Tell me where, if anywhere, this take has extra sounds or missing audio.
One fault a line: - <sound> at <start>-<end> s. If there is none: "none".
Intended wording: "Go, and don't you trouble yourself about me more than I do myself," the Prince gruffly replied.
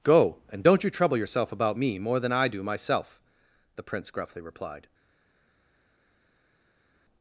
none